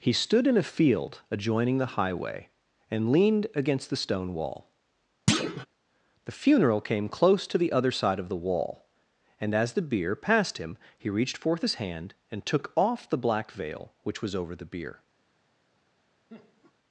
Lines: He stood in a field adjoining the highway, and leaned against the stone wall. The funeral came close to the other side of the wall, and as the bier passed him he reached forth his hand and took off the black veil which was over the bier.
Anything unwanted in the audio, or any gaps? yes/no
yes